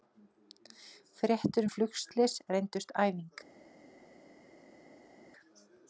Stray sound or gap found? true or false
false